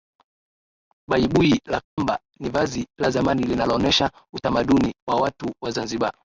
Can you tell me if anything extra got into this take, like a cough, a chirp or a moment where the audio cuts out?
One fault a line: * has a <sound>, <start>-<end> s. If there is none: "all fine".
* has a dropout, 1.8-2.0 s